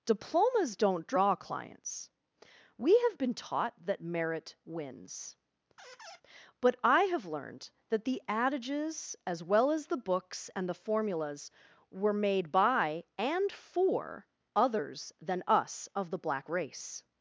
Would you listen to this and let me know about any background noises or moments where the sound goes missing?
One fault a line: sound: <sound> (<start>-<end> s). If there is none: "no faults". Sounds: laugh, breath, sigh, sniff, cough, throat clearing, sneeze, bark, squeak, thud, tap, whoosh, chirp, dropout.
sound: squeak (5.8-6.2 s)